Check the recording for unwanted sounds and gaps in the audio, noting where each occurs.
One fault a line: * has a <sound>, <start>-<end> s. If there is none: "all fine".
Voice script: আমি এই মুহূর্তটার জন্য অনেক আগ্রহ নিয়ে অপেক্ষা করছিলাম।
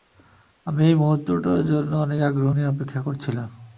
all fine